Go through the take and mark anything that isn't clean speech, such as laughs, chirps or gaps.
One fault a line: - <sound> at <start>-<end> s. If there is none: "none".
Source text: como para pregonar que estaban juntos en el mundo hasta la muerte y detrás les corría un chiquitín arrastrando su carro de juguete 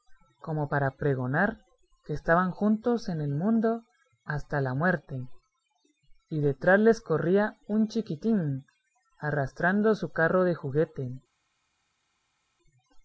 none